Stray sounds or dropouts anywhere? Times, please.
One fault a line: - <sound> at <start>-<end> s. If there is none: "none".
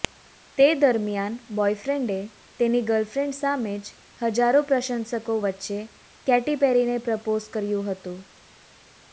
none